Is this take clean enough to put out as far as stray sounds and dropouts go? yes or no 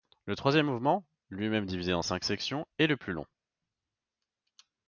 yes